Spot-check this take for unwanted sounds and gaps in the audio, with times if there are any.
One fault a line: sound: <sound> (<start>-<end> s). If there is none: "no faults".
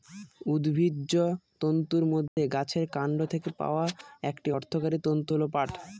sound: dropout (2.3-2.4 s)